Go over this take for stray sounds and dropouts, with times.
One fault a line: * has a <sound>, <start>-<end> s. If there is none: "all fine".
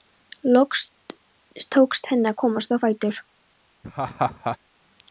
* has a laugh, 3.8-4.6 s